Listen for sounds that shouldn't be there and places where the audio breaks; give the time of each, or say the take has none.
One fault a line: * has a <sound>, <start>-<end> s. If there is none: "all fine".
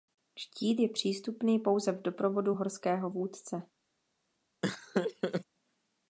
* has a laugh, 4.6-5.4 s